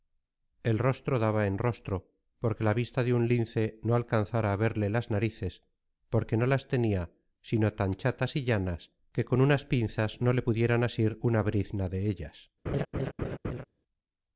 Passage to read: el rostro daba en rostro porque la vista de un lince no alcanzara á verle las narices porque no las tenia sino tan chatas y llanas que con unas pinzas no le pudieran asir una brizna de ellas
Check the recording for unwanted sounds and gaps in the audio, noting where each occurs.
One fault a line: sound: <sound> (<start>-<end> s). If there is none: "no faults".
sound: laugh (12.7-13.6 s)